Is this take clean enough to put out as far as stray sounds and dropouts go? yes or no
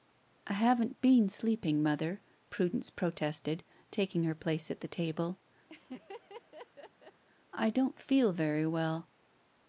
no